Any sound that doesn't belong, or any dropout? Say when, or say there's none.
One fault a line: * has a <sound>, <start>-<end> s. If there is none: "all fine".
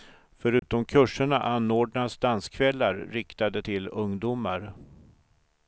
* has a dropout, 0.6-0.6 s